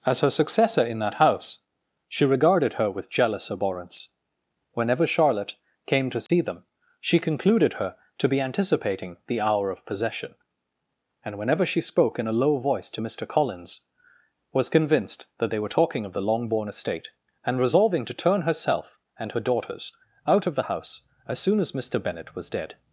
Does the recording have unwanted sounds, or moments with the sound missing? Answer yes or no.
yes